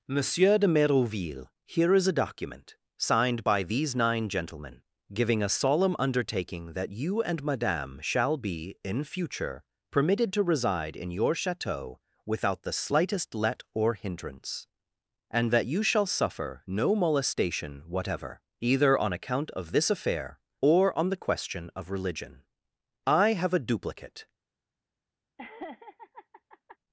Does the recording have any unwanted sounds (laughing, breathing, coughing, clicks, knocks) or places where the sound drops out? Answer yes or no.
yes